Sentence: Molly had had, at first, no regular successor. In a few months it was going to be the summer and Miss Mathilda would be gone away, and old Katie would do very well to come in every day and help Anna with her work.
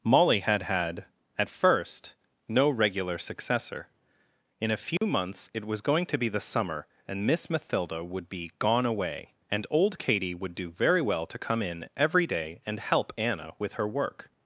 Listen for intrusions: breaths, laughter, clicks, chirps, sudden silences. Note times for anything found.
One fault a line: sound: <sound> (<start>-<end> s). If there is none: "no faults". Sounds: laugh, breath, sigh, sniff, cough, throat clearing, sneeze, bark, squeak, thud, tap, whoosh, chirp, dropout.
sound: dropout (5.0-5.0 s)